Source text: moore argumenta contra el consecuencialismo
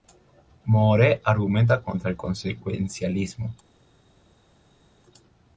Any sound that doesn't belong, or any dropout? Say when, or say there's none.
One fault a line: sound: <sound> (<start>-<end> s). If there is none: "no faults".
no faults